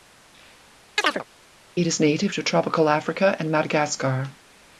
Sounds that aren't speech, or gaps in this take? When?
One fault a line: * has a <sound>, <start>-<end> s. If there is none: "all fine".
* has a chirp, 1.0-1.2 s